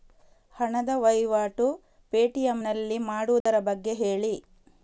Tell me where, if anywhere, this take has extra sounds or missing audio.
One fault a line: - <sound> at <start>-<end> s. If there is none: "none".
- dropout at 3.4-3.5 s